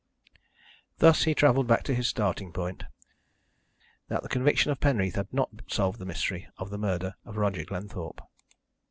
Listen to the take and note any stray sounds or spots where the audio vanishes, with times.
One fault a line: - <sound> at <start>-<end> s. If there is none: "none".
none